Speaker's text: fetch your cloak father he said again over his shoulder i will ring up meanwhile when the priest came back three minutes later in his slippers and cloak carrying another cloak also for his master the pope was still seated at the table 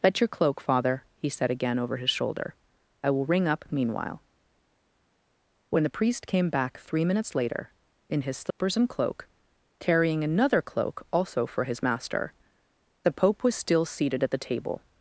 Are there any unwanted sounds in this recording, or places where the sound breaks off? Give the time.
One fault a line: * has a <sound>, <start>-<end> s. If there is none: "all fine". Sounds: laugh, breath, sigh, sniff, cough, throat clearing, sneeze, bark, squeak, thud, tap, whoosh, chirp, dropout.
* has a dropout, 8.5-8.6 s